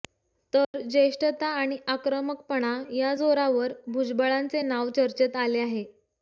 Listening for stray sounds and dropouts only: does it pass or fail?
fail